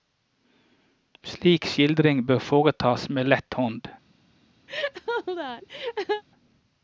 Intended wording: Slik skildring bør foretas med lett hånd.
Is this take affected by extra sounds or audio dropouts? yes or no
yes